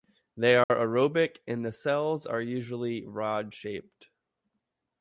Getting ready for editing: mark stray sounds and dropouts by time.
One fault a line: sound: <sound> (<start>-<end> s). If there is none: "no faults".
sound: dropout (0.6-0.7 s)